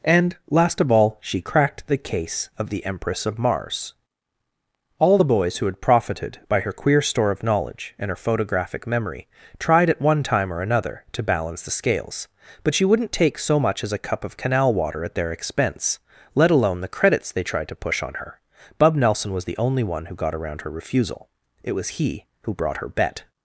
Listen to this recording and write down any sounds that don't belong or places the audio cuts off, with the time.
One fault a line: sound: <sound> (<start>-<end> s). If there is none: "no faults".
no faults